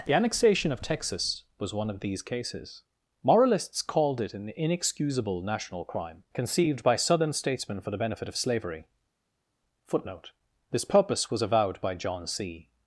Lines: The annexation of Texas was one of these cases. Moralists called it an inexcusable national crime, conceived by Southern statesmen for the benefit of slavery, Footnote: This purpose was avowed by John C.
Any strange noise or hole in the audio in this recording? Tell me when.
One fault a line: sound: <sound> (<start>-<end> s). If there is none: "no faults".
no faults